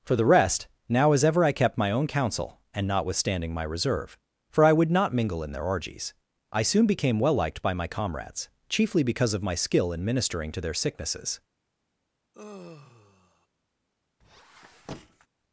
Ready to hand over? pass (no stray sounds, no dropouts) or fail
fail